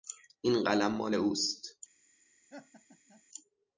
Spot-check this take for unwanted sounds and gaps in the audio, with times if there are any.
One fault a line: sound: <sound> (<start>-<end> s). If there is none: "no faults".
sound: laugh (2.5-3.2 s)